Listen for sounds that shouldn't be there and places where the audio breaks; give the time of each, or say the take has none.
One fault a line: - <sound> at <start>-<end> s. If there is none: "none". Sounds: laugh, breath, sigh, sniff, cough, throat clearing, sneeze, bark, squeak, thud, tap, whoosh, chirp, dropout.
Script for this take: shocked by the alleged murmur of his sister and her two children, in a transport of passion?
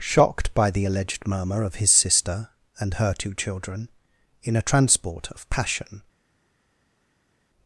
none